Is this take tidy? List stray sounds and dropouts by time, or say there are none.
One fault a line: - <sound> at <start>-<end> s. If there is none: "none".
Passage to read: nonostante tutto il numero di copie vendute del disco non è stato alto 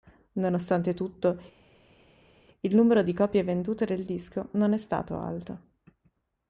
none